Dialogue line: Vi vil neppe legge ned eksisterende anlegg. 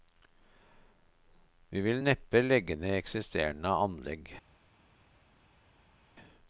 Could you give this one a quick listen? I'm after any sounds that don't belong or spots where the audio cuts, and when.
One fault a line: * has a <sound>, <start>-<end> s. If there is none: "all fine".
all fine